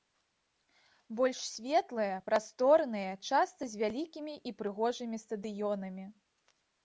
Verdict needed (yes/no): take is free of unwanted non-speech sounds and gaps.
yes